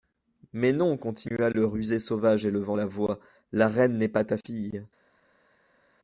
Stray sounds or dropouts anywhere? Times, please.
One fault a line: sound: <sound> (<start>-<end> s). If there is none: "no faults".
no faults